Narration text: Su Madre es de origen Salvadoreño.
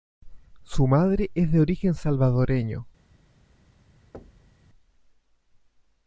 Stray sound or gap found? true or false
true